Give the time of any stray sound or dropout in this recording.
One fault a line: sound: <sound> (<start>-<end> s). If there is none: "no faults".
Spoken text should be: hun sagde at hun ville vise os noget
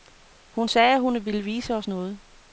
no faults